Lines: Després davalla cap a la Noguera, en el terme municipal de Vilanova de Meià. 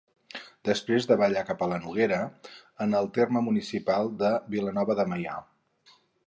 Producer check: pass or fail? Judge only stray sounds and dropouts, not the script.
pass